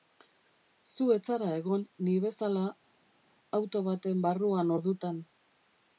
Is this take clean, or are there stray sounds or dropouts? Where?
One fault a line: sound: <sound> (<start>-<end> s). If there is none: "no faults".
no faults